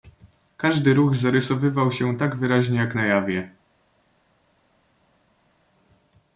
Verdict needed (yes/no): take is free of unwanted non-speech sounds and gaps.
yes